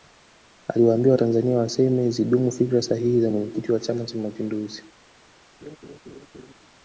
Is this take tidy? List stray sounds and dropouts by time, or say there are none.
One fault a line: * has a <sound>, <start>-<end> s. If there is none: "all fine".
* has a laugh, 5.6-6.5 s